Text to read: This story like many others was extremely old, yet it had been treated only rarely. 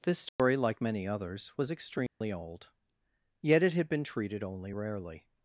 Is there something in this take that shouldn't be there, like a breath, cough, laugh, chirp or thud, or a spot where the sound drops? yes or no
yes